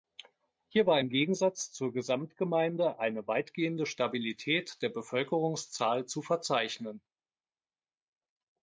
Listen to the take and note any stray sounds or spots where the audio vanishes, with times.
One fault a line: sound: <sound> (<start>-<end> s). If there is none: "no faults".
no faults